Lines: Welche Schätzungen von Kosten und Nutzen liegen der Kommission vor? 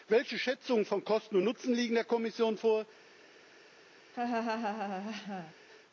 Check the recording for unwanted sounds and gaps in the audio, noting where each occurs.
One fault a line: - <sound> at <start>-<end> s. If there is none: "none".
- laugh at 4.1-5.5 s